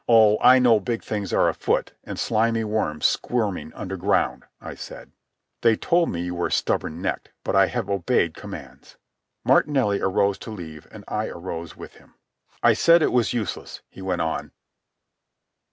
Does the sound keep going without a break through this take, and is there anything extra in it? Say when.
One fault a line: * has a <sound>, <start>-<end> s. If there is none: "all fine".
all fine